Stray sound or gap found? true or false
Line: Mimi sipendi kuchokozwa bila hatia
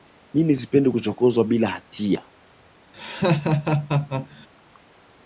true